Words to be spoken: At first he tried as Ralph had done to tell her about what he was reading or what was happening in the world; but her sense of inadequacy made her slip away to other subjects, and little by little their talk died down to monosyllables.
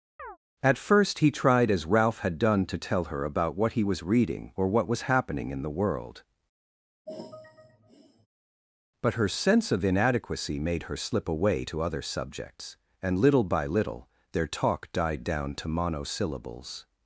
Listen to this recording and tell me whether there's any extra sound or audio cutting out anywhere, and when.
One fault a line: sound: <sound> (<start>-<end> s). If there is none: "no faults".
sound: chirp (0.2-0.4 s)
sound: sigh (7.1-8.3 s)